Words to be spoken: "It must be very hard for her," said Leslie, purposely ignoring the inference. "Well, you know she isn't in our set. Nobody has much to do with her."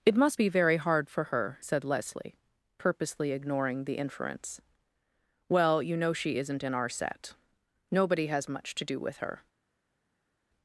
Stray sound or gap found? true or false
false